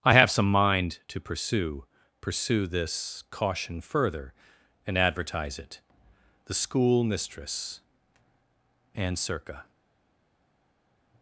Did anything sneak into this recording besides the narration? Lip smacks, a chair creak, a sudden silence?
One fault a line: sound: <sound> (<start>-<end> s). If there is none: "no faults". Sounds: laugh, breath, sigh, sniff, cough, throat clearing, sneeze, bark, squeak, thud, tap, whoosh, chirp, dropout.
no faults